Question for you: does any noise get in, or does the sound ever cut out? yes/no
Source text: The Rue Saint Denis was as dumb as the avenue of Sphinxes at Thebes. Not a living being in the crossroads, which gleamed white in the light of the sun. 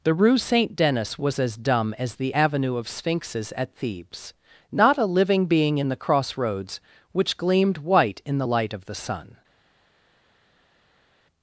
no